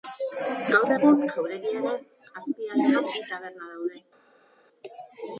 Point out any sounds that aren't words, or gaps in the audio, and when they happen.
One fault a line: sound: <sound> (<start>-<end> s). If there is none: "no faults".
no faults